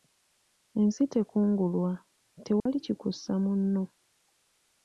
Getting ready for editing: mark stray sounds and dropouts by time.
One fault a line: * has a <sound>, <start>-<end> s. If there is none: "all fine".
* has a dropout, 2.6-2.7 s